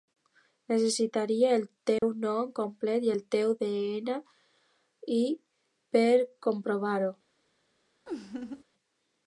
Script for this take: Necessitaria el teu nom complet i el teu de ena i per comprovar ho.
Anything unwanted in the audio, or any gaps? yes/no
yes